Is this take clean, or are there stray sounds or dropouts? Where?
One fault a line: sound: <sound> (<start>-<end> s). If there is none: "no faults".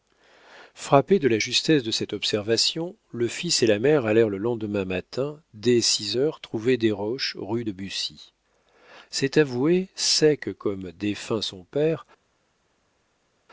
no faults